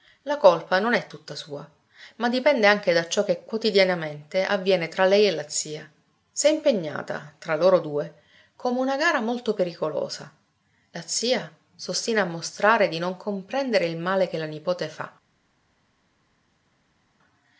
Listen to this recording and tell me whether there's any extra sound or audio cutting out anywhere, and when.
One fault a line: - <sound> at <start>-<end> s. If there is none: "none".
none